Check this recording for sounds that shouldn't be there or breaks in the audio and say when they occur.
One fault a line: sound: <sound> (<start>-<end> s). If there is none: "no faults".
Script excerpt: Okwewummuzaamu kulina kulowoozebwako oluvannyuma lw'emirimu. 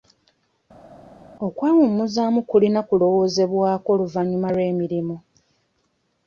no faults